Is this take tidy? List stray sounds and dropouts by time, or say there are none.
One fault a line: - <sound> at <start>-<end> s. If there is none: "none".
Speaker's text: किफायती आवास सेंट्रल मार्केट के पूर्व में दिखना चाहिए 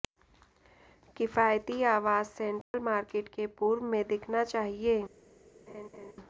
- dropout at 2.6-2.7 s
- laugh at 5.7-6.1 s